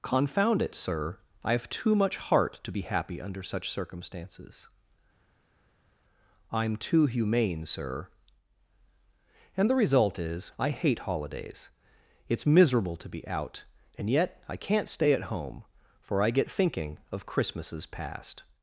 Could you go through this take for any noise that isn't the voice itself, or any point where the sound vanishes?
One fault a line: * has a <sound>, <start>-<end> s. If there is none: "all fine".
all fine